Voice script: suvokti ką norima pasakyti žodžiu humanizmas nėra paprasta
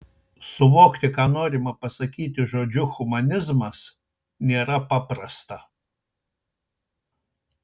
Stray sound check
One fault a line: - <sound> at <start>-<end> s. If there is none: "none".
none